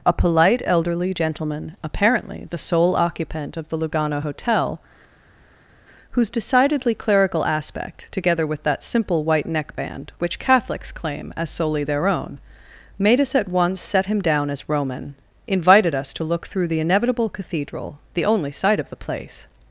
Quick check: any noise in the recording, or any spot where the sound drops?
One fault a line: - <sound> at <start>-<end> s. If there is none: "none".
none